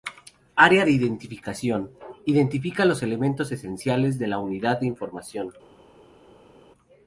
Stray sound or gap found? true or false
false